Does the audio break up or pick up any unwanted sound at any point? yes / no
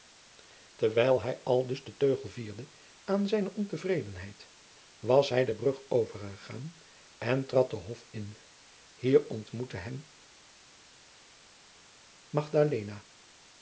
no